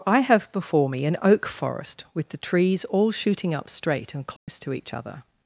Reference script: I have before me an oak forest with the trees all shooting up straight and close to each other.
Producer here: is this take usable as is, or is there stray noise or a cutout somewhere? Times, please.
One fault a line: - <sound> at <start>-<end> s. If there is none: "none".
- dropout at 4.4-4.5 s